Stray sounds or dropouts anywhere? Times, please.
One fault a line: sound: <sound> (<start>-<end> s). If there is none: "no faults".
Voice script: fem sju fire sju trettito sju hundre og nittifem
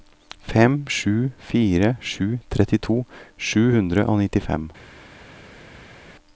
no faults